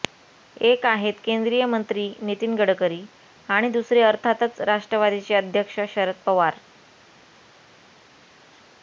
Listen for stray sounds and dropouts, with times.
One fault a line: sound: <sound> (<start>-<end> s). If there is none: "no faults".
no faults